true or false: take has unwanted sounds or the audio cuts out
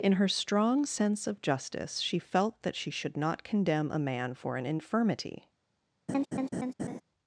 true